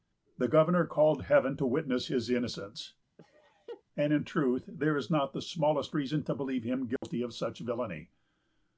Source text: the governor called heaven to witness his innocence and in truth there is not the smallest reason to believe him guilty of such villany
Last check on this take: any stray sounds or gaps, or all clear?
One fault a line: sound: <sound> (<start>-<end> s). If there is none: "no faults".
sound: laugh (3.2-3.8 s)
sound: dropout (7.0-7.0 s)